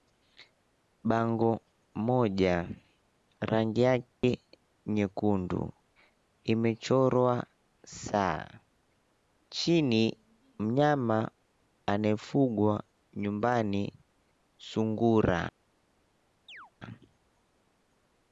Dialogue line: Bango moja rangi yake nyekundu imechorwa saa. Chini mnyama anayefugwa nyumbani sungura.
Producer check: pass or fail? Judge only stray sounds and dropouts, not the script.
fail